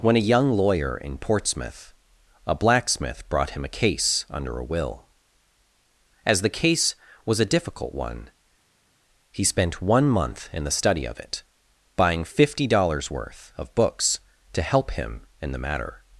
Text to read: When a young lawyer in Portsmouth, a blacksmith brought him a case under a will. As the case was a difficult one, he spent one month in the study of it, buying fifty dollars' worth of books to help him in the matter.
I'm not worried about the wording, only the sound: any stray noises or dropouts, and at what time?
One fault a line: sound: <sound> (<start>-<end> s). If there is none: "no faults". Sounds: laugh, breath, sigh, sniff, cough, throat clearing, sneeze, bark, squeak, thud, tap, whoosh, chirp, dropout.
no faults